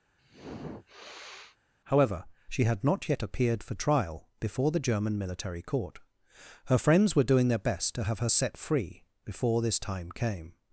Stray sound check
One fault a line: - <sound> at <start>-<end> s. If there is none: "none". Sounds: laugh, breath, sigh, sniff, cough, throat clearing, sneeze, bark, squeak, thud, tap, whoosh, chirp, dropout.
- sniff at 0.2-1.6 s